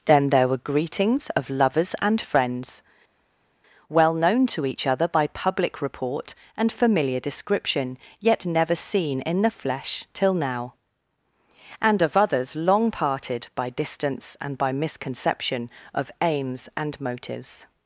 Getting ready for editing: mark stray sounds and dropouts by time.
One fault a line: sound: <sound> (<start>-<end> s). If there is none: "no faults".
no faults